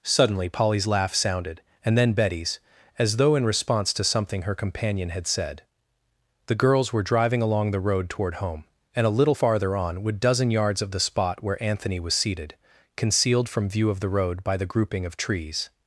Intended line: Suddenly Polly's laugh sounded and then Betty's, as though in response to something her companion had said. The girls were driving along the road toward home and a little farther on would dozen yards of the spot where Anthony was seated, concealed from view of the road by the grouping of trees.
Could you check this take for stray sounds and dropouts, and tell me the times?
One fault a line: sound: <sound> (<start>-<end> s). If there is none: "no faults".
no faults